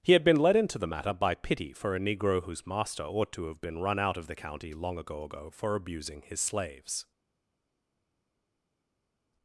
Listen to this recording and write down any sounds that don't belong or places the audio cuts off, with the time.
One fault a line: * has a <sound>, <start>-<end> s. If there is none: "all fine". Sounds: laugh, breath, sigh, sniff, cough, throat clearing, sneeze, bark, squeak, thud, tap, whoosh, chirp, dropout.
all fine